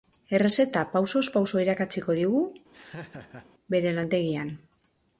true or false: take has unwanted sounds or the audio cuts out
true